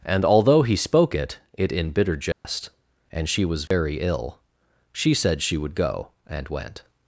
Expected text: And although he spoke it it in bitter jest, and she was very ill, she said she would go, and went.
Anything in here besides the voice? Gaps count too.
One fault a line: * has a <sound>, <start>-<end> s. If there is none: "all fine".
* has a dropout, 2.3-2.4 s
* has a dropout, 3.7-3.7 s